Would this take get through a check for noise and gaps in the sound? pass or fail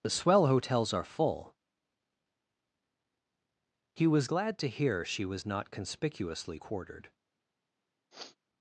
fail